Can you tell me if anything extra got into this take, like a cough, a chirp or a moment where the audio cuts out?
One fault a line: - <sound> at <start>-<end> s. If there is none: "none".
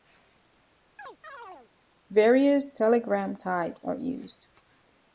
- chirp at 1.0-1.7 s